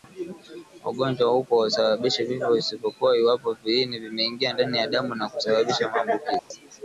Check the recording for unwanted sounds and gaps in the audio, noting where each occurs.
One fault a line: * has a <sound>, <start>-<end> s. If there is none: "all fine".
* has a dropout, 6.4-6.5 s